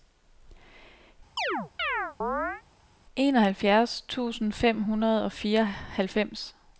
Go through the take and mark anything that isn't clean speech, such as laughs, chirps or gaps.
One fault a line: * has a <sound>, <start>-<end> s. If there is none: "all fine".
* has a chirp, 1.4-2.6 s